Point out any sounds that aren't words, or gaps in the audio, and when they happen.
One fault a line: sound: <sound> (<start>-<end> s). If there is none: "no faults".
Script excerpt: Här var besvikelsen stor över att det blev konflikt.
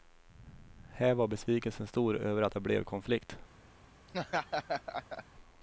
sound: laugh (4.1-5.2 s)